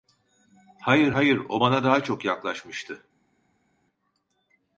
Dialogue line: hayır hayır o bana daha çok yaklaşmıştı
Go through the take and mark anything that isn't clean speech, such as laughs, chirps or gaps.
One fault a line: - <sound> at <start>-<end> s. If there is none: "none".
none